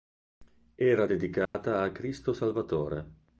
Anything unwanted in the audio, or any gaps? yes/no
yes